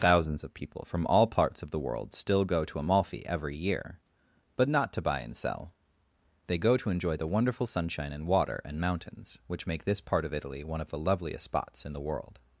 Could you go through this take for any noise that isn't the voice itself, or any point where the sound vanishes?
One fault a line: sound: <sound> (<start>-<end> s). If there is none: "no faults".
no faults